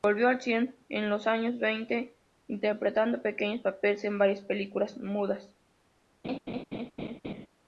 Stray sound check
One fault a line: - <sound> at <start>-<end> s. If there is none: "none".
- laugh at 6.2-7.5 s